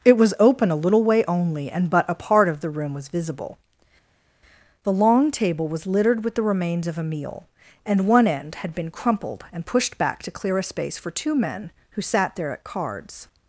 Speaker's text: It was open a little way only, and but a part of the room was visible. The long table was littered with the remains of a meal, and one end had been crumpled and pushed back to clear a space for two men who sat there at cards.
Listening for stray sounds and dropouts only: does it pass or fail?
pass